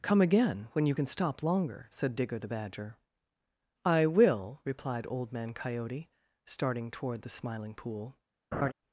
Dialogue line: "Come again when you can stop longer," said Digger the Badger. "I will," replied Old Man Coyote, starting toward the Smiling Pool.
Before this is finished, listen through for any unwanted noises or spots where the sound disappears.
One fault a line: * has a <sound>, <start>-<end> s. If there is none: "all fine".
* has a laugh, 8.5-8.7 s